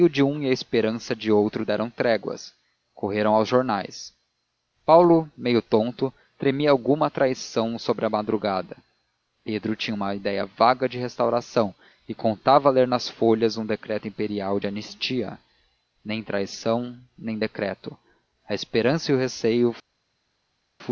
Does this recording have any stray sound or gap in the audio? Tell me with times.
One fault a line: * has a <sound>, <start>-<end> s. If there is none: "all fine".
all fine